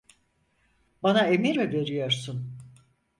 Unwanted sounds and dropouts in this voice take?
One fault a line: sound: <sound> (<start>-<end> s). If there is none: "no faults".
no faults